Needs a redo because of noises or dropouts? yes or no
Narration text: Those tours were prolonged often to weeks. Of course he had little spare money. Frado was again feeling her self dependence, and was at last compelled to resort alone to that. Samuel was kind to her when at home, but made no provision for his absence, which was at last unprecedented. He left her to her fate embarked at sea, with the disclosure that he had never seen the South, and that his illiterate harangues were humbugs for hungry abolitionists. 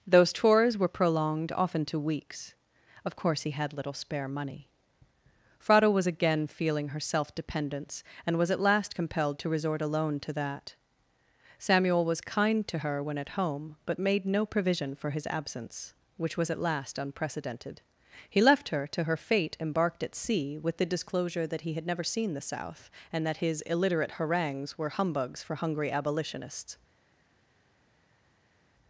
no